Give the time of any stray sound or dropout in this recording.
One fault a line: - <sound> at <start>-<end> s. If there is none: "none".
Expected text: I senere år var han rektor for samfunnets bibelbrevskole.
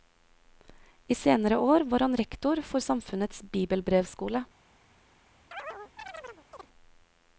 - chirp at 5.5-6.7 s